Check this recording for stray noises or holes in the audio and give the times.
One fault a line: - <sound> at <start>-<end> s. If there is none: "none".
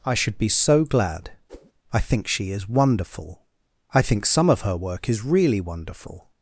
- whoosh at 1.5-1.7 s